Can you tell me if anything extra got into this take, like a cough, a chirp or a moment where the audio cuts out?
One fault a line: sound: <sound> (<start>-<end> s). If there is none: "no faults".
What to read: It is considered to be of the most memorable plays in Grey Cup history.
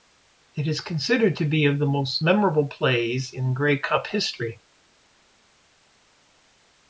no faults